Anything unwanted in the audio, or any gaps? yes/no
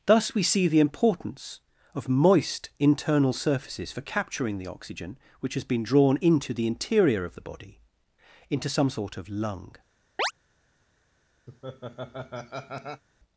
yes